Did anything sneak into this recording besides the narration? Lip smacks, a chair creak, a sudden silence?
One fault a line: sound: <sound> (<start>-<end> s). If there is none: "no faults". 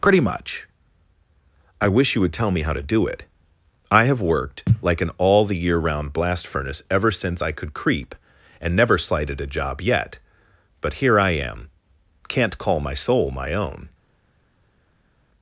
no faults